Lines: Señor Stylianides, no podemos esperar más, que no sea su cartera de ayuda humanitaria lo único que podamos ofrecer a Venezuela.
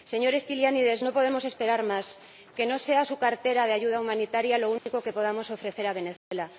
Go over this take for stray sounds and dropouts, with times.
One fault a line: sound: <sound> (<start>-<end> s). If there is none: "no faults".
sound: dropout (4.8-4.9 s)
sound: dropout (6.2-6.3 s)